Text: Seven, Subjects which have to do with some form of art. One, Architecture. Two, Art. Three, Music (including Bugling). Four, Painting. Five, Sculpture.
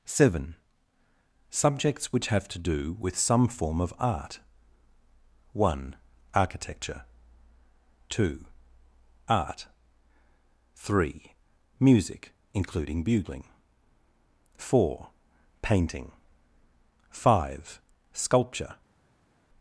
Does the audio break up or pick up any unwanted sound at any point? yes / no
no